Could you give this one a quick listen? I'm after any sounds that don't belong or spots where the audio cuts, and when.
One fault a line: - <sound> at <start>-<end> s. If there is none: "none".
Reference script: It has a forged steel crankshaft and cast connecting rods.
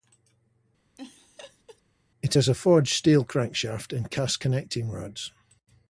- laugh at 1.0-1.8 s